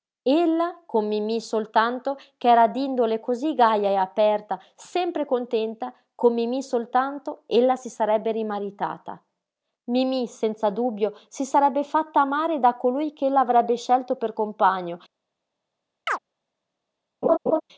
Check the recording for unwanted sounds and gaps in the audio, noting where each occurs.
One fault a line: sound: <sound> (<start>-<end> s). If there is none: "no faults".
sound: chirp (16.1-16.2 s)
sound: laugh (17.2-17.6 s)